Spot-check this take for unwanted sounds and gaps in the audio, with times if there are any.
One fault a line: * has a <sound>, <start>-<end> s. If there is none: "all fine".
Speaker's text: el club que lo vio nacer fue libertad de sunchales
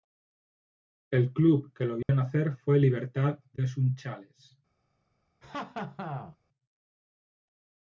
* has a dropout, 2.0-2.1 s
* has a laugh, 5.4-6.4 s